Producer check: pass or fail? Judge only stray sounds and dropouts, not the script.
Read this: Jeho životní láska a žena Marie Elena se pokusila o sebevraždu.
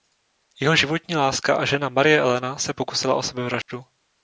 fail